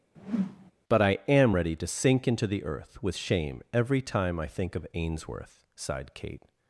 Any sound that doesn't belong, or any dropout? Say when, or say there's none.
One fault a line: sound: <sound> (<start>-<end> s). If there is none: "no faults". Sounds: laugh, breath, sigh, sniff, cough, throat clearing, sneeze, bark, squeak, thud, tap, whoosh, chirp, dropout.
sound: whoosh (0.2-0.7 s)